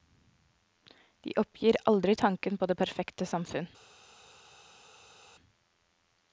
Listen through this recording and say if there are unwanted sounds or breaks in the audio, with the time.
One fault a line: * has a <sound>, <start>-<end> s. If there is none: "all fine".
all fine